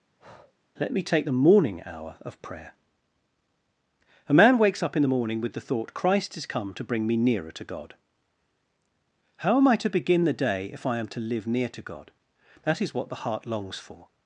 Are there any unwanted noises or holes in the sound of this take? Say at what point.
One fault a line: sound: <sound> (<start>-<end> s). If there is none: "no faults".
sound: breath (0.2-0.5 s)